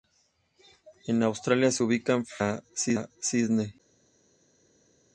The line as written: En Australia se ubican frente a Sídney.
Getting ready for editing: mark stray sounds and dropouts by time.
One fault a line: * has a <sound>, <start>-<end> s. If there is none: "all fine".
all fine